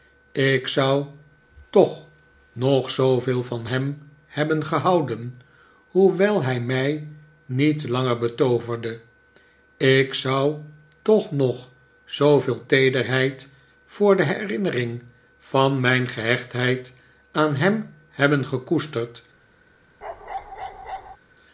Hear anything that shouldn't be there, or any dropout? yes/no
yes